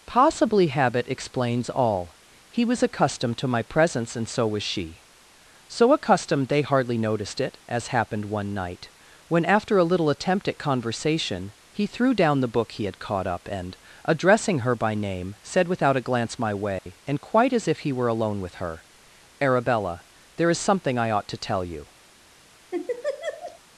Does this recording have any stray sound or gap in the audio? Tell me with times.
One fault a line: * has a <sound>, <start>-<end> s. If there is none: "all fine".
* has a dropout, 16.8-16.9 s
* has a laugh, 22.7-23.6 s